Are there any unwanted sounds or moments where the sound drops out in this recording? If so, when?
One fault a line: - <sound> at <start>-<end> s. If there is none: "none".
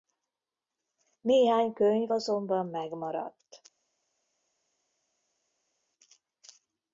none